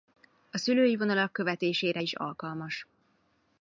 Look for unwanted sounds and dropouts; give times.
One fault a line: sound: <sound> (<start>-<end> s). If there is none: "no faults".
no faults